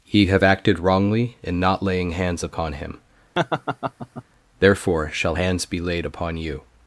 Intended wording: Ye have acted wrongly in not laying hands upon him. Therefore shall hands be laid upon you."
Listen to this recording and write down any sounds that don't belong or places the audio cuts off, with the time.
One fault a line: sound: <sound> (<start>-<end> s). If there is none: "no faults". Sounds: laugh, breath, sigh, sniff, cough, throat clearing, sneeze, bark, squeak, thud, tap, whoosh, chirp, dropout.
sound: laugh (3.3-4.2 s)